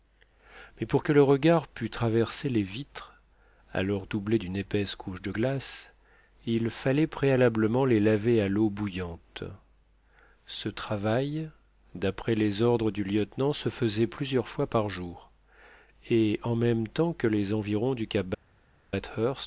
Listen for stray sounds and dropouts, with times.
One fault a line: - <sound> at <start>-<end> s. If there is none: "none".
none